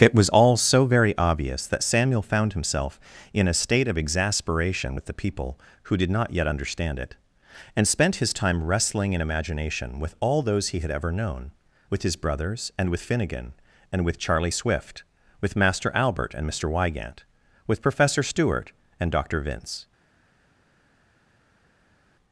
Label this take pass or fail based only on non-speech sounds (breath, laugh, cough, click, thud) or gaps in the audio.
pass